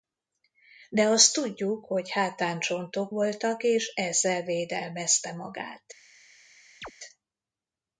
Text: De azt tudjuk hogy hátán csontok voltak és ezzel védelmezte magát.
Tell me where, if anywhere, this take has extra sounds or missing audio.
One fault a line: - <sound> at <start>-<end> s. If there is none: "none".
- chirp at 6.8-6.9 s